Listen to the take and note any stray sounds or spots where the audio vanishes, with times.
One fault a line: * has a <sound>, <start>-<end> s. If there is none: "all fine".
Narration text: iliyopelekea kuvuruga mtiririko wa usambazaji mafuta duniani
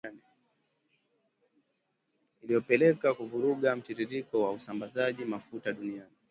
all fine